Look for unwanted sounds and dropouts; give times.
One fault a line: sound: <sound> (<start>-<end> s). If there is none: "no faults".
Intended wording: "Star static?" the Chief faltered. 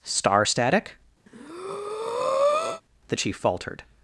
sound: breath (1.3-2.8 s)